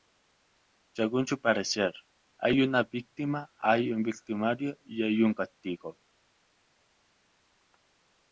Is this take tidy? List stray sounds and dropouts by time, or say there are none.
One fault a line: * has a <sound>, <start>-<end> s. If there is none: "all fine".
all fine